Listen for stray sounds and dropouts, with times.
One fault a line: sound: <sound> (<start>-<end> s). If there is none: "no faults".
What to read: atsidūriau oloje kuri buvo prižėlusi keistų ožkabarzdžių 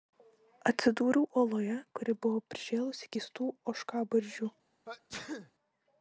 sound: sneeze (4.9-5.5 s)